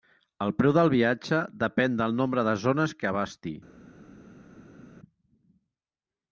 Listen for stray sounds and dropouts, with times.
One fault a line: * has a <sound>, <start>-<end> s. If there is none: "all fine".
all fine